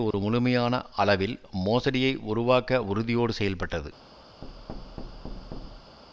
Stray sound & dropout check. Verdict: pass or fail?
fail